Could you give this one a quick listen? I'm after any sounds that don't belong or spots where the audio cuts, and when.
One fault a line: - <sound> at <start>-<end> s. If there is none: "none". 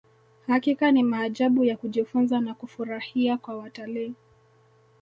none